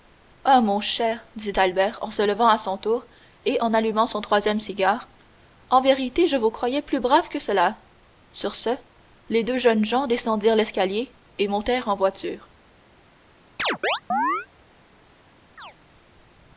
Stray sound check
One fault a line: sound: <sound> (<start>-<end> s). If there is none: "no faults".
sound: chirp (13.6-14.5 s)
sound: chirp (15.6-15.7 s)